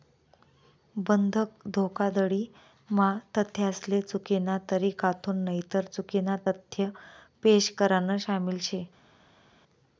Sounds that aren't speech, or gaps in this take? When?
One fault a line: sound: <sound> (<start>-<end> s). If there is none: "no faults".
no faults